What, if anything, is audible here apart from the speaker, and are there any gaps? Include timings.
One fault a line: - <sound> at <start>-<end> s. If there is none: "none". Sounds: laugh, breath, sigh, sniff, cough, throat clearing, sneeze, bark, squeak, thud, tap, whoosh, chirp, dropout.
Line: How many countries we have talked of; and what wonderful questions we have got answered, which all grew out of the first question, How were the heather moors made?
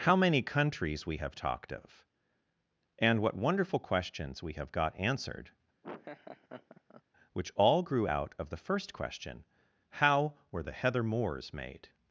- laugh at 5.8-7.0 s